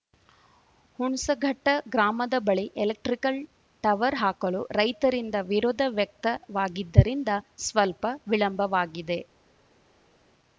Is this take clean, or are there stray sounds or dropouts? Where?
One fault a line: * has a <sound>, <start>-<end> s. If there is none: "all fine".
all fine